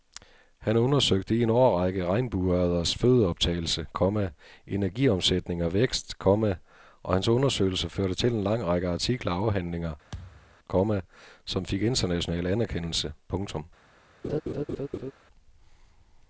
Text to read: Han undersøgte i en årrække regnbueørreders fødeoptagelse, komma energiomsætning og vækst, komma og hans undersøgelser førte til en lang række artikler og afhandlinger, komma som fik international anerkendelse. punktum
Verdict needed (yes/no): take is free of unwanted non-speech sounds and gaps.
no